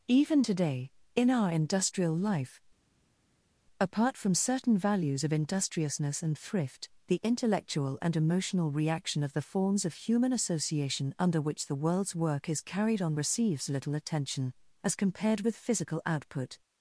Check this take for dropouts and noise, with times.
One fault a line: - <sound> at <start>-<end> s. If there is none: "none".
none